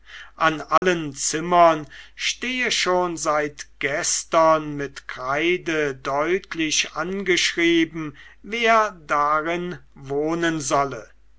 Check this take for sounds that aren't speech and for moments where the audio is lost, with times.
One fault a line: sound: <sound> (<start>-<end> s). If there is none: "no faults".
sound: dropout (0.8-0.8 s)